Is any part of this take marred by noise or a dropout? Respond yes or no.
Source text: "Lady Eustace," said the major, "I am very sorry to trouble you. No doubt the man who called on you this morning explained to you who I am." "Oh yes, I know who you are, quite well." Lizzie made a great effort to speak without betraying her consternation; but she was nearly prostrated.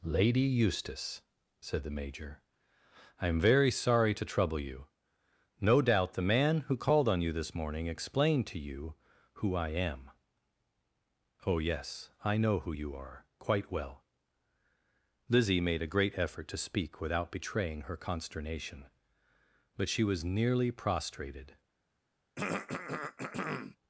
yes